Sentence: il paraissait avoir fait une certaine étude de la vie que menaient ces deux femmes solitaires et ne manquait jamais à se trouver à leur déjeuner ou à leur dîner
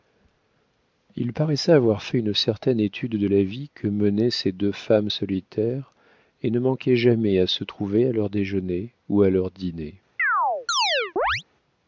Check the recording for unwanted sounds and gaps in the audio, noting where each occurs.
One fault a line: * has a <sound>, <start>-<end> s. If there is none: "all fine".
* has a chirp, 10.2-11.4 s